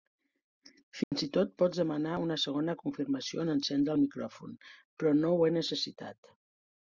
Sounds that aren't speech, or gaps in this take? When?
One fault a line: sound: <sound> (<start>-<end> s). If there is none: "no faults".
sound: dropout (1.0-1.1 s)